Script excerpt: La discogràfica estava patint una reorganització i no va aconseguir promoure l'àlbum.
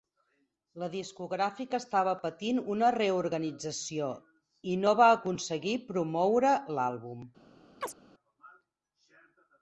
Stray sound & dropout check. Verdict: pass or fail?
fail